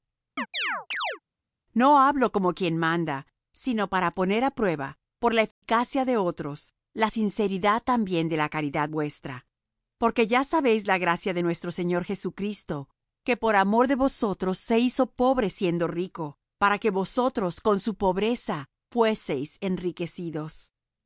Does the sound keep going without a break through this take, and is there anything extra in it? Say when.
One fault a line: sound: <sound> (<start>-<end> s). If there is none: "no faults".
sound: chirp (0.4-1.2 s)
sound: dropout (5.5-5.6 s)